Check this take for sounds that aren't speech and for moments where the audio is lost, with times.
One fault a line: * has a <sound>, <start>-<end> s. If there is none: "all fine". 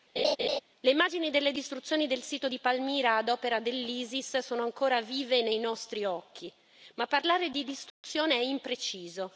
* has a laugh, 0.2-0.6 s
* has a dropout, 7.9-8.0 s